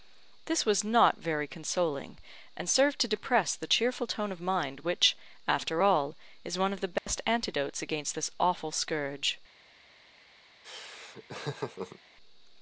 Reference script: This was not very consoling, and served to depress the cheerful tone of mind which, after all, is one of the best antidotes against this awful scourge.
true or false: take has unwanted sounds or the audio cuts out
true